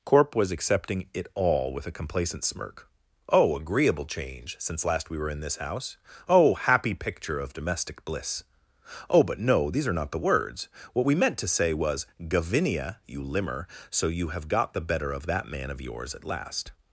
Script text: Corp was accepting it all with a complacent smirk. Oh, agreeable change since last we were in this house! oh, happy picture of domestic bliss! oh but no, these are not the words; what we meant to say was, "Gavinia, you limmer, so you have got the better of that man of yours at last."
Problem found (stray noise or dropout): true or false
false